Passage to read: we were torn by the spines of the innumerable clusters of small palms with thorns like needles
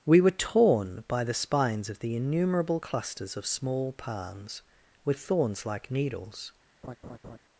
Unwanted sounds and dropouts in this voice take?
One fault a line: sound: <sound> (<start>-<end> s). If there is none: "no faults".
sound: laugh (6.8-7.4 s)